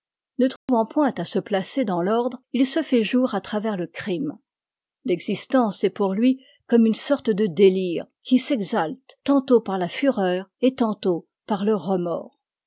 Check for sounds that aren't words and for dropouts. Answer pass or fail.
fail